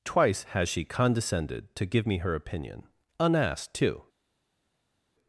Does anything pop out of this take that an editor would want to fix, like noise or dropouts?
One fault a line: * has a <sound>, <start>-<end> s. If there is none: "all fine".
all fine